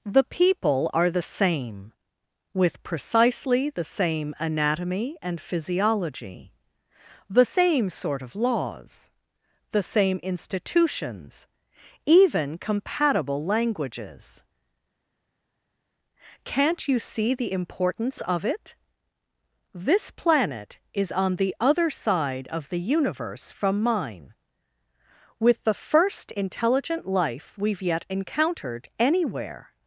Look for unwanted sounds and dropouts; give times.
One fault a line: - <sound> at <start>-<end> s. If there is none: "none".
none